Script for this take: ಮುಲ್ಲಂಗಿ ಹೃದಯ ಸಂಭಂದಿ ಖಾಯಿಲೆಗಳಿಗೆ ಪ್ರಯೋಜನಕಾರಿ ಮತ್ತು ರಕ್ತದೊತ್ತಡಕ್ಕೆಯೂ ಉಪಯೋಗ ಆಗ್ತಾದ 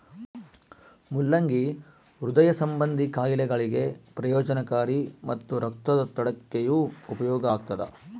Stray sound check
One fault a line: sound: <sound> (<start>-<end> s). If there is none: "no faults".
no faults